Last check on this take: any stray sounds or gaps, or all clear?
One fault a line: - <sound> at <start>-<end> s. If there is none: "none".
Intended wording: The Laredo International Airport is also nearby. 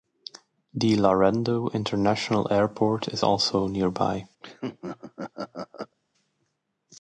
- laugh at 4.4-6.0 s